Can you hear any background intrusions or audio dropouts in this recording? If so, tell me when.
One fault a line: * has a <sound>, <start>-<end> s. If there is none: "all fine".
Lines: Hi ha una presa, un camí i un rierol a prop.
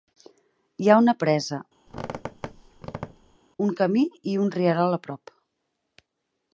* has a squeak, 1.9-3.4 s